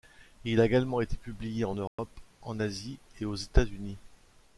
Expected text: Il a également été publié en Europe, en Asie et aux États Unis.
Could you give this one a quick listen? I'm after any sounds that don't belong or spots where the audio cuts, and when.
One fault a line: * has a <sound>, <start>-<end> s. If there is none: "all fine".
* has a dropout, 1.9-2.0 s